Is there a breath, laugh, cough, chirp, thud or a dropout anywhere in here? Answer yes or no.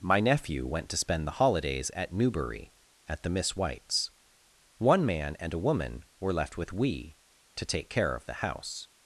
no